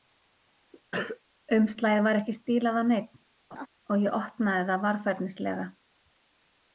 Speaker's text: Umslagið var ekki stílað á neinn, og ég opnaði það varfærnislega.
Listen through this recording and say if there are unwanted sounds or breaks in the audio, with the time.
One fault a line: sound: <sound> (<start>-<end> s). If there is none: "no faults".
sound: cough (0.9-1.2 s)
sound: laugh (3.5-3.7 s)